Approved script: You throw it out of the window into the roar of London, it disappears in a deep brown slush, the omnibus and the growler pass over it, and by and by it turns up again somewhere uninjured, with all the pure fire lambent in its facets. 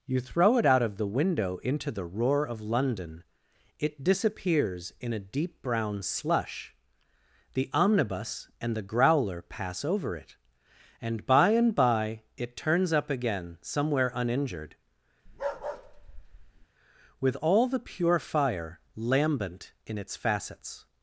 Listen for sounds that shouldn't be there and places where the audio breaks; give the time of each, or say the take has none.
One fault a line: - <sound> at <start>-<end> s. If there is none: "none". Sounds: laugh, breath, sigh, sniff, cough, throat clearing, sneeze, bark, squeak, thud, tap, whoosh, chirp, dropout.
- bark at 15.3-16.7 s